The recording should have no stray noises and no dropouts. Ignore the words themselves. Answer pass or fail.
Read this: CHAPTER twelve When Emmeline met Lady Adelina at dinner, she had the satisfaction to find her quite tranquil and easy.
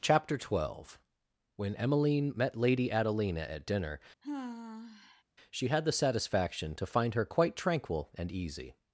fail